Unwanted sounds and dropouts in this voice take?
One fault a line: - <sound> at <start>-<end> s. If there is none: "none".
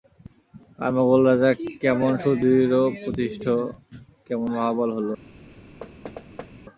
- thud at 5.8-6.5 s